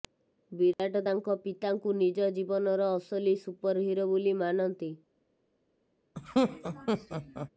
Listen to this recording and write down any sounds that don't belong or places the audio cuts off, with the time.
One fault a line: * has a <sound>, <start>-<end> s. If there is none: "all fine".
* has a dropout, 0.7-0.8 s
* has a laugh, 6.1-7.5 s